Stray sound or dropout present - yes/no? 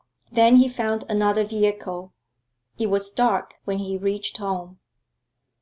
no